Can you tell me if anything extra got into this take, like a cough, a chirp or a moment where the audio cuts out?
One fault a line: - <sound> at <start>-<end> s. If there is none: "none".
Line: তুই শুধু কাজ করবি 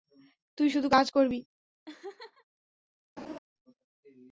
- laugh at 1.9-2.4 s
- laugh at 3.2-3.4 s